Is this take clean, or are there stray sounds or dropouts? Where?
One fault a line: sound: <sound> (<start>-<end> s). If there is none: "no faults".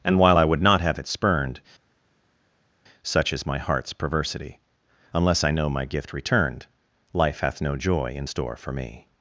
no faults